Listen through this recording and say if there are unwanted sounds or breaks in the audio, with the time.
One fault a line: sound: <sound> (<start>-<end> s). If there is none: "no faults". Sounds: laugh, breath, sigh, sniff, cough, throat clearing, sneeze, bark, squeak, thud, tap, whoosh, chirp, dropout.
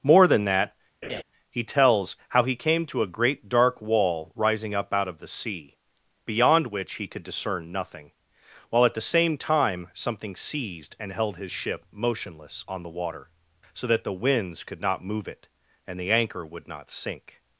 sound: laugh (1.0-1.2 s)